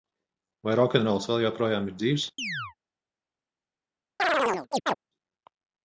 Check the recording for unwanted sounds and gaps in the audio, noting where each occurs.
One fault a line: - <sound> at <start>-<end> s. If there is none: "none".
- chirp at 2.4-2.7 s
- chirp at 4.2-4.9 s